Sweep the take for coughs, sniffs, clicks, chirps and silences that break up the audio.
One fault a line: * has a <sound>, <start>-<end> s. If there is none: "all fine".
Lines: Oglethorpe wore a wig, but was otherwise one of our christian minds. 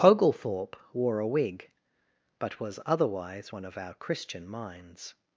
all fine